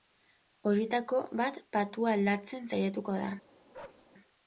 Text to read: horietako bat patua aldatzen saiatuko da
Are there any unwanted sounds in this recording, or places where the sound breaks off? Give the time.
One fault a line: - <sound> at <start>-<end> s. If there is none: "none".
- bark at 3.7-4.1 s